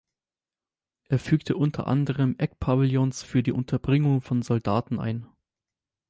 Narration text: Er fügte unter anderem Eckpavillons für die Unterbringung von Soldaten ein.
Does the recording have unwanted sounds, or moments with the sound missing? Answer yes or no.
no